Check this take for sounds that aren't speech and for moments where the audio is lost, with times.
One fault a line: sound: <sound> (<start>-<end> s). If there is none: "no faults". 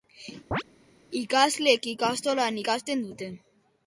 sound: chirp (0.5-0.6 s)